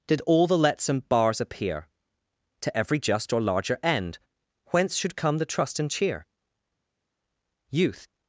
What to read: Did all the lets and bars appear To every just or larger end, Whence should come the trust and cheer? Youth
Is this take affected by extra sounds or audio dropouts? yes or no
no